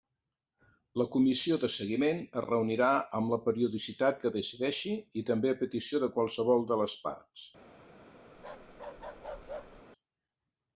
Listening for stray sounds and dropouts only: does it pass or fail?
fail